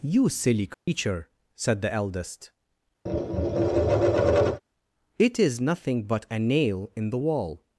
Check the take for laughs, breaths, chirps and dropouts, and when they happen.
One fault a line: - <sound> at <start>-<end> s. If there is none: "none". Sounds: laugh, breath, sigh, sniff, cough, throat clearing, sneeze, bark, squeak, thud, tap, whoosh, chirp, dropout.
- dropout at 0.7-0.9 s
- tap at 3.1-4.6 s